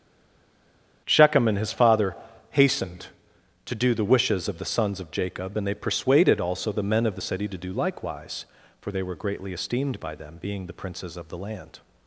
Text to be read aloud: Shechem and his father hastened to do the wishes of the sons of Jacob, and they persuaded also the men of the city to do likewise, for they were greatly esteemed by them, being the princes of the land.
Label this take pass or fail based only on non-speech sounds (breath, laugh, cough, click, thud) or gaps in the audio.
pass